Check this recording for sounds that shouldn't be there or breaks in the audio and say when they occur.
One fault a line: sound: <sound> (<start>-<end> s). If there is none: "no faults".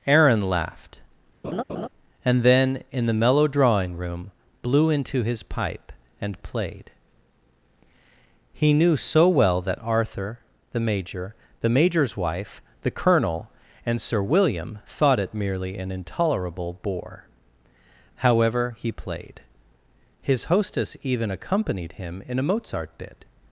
sound: laugh (1.4-1.9 s)